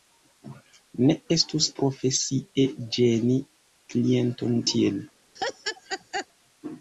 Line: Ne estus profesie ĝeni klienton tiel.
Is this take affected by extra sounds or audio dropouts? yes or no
yes